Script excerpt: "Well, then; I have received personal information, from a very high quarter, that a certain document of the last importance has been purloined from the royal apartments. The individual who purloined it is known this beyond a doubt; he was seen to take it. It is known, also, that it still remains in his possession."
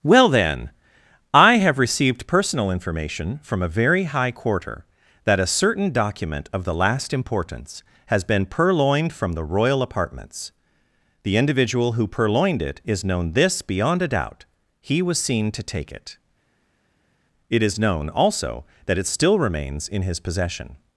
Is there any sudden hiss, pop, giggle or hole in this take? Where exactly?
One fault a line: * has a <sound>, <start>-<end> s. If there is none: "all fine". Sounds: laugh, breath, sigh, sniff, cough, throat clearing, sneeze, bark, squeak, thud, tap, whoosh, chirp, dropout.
all fine